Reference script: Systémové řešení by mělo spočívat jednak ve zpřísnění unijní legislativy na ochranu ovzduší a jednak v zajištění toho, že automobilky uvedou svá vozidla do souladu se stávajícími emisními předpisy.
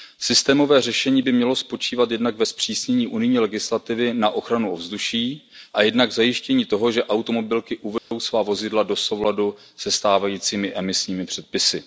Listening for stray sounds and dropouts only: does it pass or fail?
fail